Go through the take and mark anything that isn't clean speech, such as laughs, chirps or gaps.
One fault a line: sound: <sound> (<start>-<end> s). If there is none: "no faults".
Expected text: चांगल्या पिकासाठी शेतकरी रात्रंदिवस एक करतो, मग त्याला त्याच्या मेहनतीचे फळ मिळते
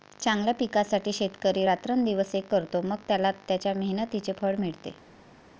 no faults